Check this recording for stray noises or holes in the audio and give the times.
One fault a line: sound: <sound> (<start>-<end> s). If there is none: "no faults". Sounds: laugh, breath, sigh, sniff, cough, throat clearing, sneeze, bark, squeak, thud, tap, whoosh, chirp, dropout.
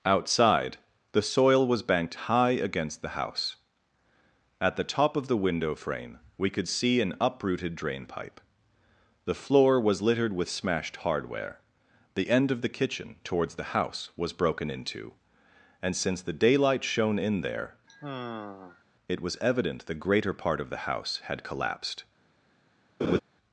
sound: sigh (17.9-18.9 s)
sound: laugh (23.0-23.2 s)